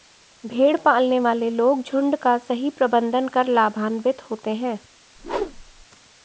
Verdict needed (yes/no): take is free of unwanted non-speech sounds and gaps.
no